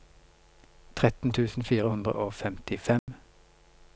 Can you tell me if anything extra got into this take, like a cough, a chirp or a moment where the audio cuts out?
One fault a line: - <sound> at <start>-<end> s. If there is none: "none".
- dropout at 3.0-3.1 s